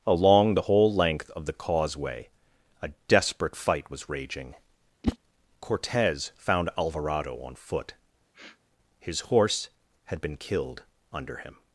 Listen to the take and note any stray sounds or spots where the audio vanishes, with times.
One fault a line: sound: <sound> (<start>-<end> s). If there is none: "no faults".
sound: whoosh (5.0-5.2 s)
sound: sniff (8.3-8.6 s)